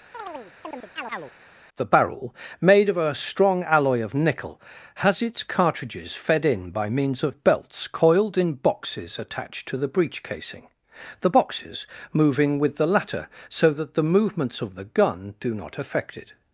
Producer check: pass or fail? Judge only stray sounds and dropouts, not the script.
fail